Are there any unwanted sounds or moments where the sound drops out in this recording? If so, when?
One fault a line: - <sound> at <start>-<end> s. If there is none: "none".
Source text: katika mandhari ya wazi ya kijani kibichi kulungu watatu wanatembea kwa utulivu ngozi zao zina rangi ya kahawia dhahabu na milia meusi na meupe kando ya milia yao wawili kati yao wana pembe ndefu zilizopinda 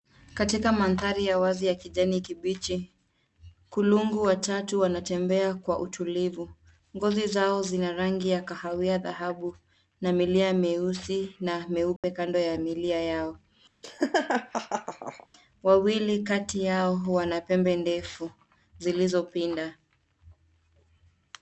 - dropout at 12.0-12.0 s
- laugh at 13.8-15.3 s